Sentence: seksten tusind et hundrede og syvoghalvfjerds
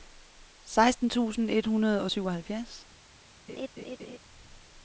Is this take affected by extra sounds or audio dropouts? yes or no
yes